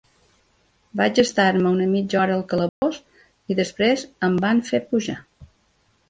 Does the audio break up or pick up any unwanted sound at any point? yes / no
yes